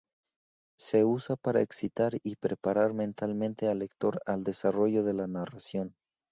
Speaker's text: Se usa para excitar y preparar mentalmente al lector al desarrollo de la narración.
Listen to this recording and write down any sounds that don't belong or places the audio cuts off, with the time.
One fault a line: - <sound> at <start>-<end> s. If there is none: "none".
none